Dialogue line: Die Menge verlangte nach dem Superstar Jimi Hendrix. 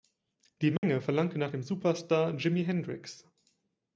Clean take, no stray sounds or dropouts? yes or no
no